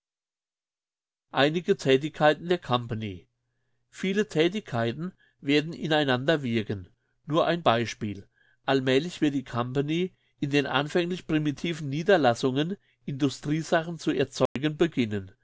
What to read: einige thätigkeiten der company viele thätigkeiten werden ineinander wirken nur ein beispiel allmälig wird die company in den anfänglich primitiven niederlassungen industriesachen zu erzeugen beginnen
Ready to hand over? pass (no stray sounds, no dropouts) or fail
fail